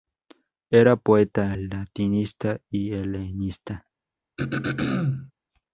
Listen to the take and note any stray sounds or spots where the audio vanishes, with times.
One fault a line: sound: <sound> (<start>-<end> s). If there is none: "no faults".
sound: throat clearing (4.4-5.3 s)